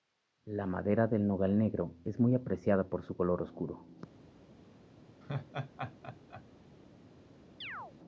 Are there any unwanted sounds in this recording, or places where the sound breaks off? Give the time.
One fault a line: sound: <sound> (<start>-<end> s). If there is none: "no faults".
sound: laugh (5.2-6.4 s)
sound: chirp (7.6-7.9 s)